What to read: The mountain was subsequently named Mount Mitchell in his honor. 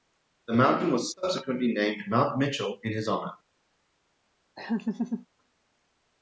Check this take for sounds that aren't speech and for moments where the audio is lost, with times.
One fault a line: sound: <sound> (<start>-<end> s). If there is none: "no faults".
sound: laugh (4.6-5.3 s)